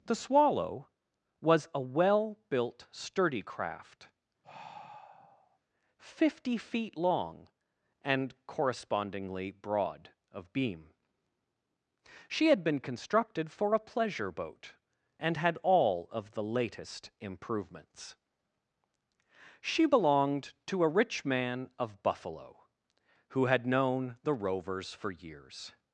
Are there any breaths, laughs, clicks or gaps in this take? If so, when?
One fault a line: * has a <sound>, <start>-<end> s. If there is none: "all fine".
* has a sigh, 4.4-5.6 s